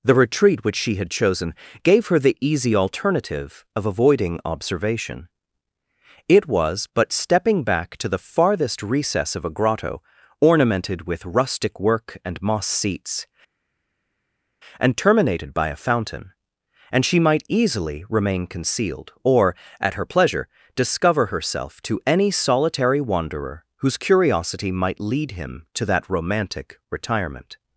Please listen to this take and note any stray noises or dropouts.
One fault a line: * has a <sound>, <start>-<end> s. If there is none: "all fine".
all fine